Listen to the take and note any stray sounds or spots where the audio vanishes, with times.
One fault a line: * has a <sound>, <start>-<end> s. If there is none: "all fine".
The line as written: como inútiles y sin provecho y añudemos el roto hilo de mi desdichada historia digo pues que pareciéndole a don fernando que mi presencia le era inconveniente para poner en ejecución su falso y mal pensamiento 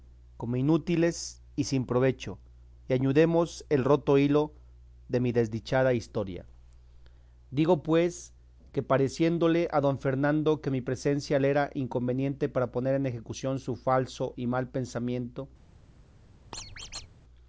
* has a squeak, 16.5-17.1 s